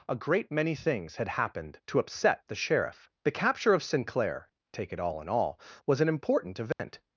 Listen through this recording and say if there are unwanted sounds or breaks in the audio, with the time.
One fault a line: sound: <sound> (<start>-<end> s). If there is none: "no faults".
sound: dropout (6.7-6.8 s)